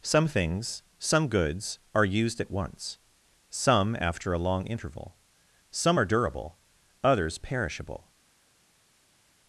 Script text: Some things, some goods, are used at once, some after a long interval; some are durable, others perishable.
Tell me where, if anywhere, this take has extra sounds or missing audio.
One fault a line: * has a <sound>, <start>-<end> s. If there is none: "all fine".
all fine